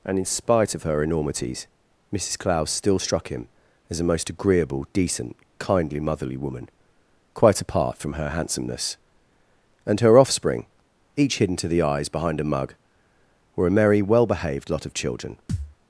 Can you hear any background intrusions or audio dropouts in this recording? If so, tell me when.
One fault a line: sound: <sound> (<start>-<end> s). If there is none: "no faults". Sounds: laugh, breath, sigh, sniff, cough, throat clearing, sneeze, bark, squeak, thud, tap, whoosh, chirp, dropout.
sound: thud (15.5-15.8 s)